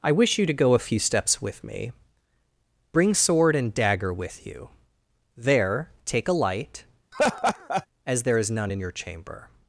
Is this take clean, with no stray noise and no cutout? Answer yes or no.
no